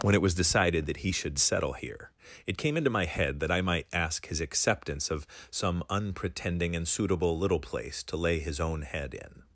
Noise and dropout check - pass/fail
pass